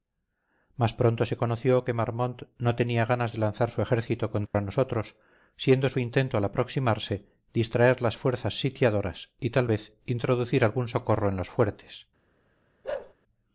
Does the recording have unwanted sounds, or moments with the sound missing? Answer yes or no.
yes